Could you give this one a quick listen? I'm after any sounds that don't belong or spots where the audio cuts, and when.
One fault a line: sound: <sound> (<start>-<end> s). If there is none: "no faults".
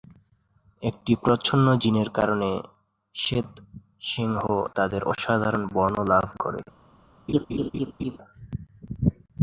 sound: laugh (7.3-8.2 s)